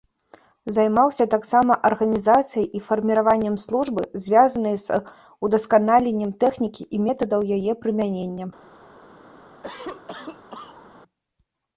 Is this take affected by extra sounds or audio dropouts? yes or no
yes